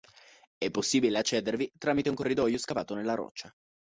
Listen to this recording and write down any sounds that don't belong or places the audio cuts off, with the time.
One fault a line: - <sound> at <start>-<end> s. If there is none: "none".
none